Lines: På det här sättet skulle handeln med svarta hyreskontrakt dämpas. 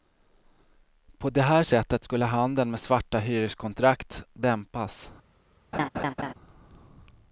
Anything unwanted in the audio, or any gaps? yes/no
yes